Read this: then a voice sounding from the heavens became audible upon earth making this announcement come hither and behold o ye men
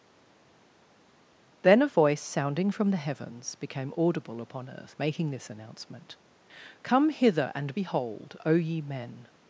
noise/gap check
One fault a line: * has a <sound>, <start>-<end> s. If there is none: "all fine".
all fine